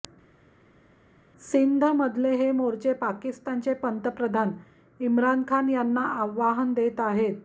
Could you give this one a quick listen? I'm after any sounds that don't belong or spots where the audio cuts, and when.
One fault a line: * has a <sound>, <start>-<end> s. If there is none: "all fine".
all fine